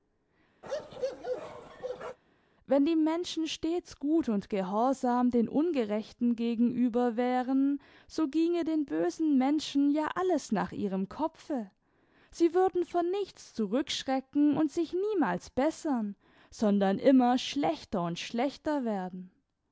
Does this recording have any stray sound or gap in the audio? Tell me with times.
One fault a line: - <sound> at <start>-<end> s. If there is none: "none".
- bark at 0.6-2.2 s